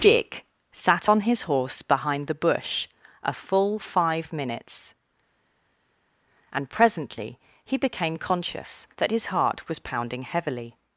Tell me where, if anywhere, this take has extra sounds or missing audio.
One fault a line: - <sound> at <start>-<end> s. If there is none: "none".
none